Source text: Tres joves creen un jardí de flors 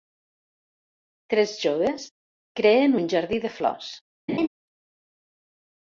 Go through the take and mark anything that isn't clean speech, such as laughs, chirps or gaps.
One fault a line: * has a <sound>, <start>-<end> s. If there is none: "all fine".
* has a laugh, 4.3-4.5 s